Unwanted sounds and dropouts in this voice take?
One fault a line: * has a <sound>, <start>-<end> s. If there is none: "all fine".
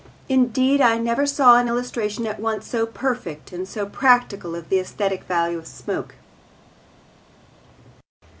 all fine